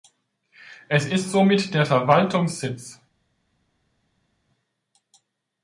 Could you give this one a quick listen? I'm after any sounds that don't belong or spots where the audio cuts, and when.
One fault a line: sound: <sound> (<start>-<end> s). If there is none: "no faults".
no faults